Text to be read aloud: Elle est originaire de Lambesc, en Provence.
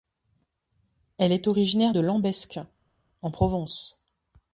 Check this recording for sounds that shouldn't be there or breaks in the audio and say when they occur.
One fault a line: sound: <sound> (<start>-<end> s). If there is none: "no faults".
no faults